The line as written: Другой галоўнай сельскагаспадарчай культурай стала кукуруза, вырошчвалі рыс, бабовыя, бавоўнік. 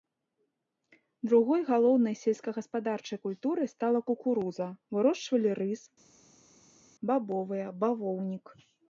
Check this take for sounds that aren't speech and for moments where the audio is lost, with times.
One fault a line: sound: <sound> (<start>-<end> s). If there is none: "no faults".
no faults